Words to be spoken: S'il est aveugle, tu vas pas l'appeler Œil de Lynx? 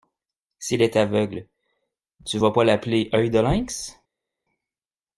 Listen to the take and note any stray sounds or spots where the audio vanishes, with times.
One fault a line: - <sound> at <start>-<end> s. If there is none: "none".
none